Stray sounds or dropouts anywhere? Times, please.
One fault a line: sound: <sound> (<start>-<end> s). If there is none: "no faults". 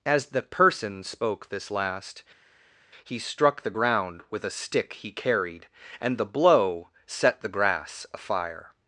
no faults